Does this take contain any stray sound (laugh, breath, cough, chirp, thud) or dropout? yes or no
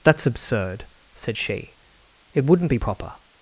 no